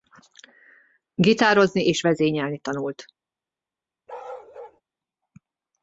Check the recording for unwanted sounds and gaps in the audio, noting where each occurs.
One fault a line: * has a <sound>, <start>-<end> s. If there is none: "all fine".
* has a bark, 4.1-4.8 s